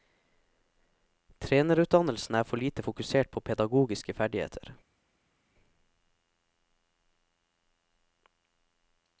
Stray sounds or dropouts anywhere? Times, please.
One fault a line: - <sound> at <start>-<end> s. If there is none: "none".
none